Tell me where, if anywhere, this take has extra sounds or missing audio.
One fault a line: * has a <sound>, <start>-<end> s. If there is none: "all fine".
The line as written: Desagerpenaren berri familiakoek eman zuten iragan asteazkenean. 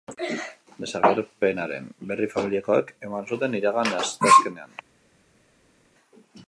all fine